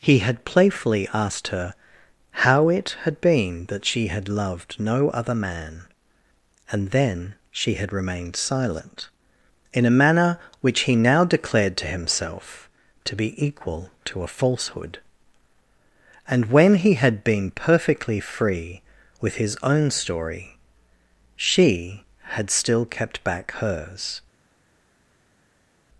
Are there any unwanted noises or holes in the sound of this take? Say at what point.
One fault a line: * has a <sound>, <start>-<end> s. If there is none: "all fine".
all fine